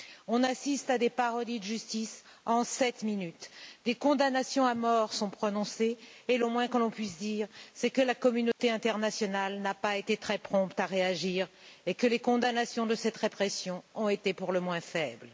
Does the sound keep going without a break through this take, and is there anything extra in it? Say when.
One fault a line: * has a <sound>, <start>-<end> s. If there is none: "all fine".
* has a dropout, 8.5-8.6 s